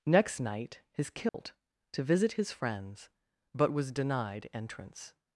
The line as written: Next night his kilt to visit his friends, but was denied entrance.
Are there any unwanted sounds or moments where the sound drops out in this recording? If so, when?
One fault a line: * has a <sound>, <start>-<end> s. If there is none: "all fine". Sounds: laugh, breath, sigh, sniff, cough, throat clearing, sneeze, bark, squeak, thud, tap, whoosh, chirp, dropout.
* has a dropout, 1.3-1.3 s